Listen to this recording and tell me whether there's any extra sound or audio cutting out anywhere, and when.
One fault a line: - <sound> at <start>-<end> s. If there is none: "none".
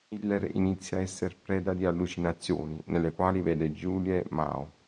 none